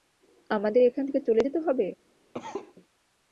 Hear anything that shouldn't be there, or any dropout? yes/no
yes